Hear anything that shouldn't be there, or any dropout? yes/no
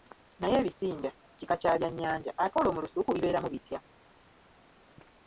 no